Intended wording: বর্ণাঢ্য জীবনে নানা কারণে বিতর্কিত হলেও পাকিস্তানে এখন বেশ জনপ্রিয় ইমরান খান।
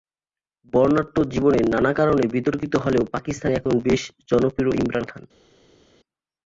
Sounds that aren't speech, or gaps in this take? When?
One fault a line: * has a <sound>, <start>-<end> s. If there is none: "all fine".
all fine